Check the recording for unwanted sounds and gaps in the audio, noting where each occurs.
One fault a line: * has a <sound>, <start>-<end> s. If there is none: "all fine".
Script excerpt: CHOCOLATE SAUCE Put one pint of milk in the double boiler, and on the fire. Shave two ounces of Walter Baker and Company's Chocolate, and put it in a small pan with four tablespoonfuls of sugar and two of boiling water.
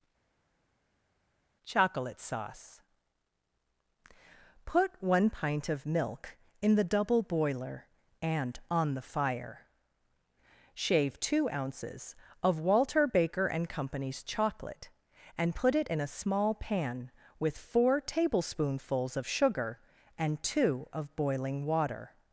all fine